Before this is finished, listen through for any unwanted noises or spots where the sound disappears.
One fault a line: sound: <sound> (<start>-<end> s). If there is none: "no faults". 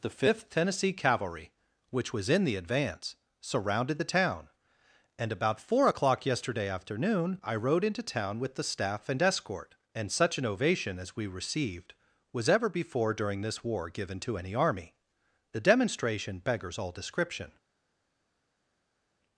no faults